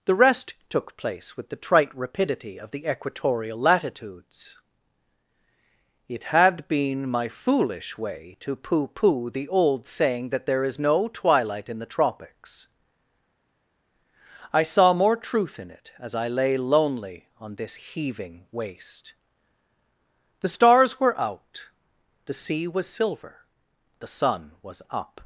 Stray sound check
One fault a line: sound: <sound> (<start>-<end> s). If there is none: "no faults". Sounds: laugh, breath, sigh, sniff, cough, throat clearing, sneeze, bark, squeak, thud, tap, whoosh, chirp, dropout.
no faults